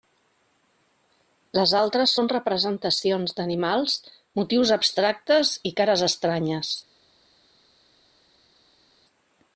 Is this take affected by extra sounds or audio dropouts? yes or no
no